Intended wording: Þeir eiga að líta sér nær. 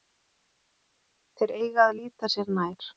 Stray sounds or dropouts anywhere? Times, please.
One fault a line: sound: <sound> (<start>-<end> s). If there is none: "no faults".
no faults